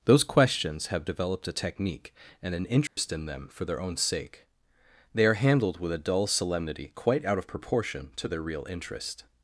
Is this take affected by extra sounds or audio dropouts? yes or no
yes